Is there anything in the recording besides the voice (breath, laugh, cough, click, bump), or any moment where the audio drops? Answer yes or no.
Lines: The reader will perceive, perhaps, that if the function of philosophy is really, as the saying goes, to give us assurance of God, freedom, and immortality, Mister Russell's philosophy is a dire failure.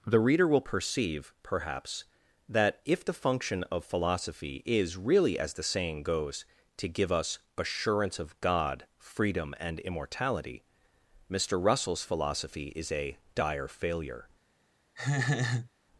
yes